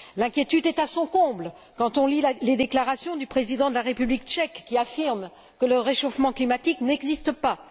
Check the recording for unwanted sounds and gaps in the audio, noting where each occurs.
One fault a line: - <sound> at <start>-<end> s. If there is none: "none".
none